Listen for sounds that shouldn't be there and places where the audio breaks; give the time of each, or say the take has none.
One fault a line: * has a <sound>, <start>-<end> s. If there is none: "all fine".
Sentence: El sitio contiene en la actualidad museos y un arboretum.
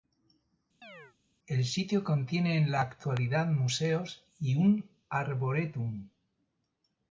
* has a chirp, 0.8-1.2 s